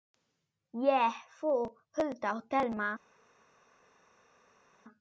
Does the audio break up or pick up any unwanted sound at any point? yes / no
no